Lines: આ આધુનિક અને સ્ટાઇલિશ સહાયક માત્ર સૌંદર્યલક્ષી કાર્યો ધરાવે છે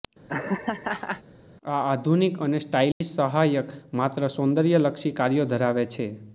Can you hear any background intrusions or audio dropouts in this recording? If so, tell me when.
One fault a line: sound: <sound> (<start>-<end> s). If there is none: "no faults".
sound: laugh (0.3-1.2 s)
sound: dropout (2.9-3.0 s)